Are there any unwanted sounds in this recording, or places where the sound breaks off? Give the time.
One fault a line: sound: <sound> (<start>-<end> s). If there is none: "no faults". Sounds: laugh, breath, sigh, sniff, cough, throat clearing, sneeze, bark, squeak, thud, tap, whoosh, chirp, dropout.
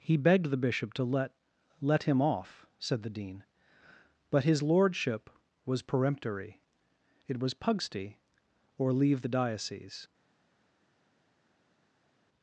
no faults